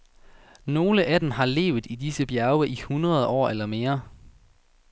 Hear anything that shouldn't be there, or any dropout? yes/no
no